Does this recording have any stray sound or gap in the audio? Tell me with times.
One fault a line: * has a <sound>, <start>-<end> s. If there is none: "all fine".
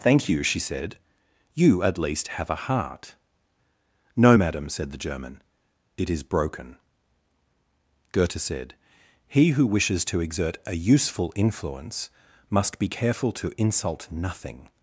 all fine